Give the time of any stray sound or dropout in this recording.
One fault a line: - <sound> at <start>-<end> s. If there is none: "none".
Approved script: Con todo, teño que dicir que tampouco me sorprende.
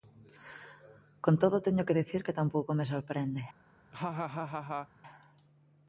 - laugh at 3.9-4.9 s